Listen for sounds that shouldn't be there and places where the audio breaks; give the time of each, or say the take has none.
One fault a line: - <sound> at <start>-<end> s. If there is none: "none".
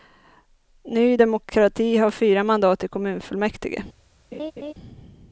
- laugh at 4.3-4.7 s